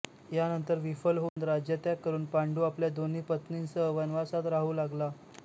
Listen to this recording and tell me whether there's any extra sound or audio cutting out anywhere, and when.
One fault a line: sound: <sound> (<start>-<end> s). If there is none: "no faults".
sound: dropout (1.3-1.4 s)